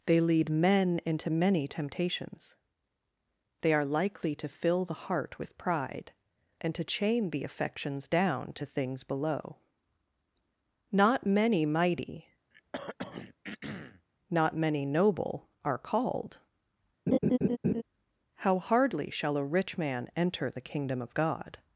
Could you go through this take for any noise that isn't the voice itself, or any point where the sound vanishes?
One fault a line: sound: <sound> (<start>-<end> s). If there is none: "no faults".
sound: throat clearing (12.5-14.1 s)
sound: laugh (17.1-17.8 s)